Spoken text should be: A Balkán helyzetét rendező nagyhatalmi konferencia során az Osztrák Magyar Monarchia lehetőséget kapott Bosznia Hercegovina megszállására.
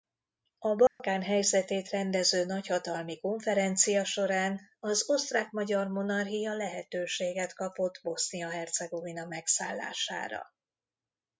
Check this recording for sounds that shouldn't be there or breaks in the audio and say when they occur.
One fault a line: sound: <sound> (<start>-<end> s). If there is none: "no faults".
sound: dropout (0.9-1.0 s)